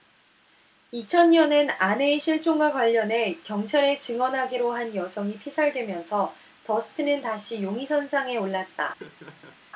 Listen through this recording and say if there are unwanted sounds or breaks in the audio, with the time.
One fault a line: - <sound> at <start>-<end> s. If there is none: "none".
- laugh at 9.0-9.6 s